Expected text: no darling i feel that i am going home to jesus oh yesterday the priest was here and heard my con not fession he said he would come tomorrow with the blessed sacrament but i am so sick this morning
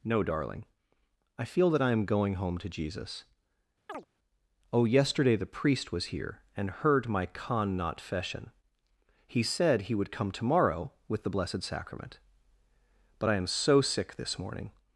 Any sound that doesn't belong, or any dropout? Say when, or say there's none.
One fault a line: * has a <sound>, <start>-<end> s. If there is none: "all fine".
* has a chirp, 3.9-4.1 s